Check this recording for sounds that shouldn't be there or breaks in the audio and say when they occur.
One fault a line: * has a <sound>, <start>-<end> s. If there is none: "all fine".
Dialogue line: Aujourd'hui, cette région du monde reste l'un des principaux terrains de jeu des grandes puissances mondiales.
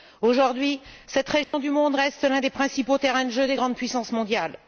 * has a dropout, 1.4-1.5 s